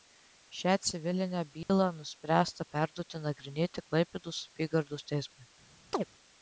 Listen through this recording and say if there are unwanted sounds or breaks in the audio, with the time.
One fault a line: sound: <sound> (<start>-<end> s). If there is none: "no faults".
sound: dropout (1.6-1.7 s)
sound: chirp (5.9-6.0 s)